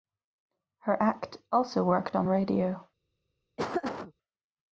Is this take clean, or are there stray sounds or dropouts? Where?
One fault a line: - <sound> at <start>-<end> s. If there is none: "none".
- laugh at 3.6-4.1 s